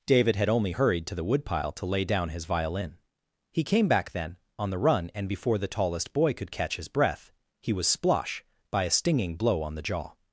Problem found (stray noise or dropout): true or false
false